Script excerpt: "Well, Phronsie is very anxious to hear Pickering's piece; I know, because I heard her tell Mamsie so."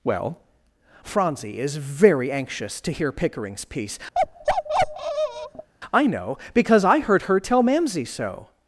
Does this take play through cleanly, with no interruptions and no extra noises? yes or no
no